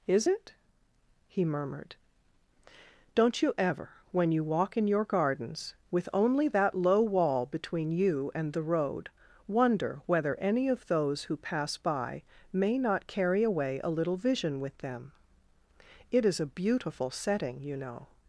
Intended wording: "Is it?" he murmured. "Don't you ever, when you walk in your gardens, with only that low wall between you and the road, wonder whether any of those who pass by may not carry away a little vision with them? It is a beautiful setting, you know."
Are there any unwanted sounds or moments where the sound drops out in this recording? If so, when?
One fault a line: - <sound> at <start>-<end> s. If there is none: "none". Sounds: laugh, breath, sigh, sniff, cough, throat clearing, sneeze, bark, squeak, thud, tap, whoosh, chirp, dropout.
none